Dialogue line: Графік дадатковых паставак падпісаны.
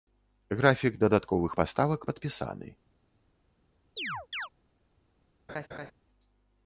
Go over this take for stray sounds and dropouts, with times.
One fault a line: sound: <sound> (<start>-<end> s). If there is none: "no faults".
sound: chirp (4.0-4.5 s)
sound: laugh (5.5-5.9 s)